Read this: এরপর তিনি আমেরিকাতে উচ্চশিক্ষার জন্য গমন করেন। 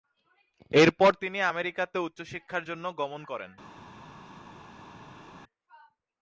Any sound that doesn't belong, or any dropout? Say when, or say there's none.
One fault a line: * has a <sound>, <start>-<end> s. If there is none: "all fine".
all fine